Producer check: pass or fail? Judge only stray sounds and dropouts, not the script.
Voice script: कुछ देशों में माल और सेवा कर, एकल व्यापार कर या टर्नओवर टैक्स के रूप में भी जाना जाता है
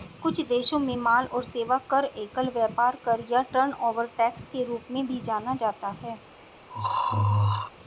fail